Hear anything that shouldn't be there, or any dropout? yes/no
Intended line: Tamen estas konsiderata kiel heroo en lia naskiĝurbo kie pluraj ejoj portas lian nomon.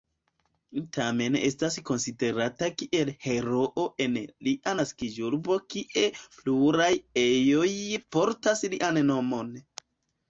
no